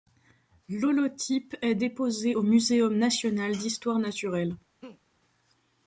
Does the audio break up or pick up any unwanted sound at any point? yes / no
yes